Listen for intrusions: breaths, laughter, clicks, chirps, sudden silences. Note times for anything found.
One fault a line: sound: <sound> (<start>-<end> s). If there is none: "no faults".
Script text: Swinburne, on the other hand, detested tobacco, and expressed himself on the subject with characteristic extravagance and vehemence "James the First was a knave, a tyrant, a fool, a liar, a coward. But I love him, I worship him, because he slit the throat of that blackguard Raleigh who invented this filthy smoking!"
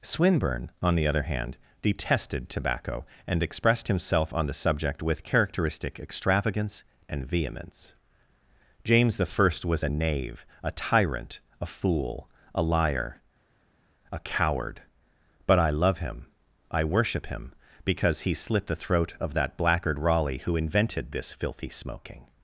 no faults